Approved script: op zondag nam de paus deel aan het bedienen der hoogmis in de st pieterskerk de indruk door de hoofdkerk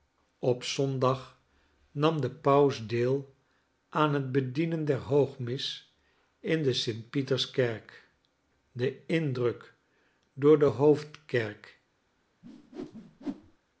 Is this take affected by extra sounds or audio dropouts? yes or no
yes